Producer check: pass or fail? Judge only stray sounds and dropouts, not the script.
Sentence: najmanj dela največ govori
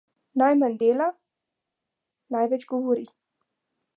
pass